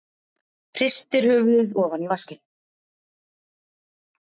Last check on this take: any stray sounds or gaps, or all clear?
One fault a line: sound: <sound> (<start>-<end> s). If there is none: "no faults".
no faults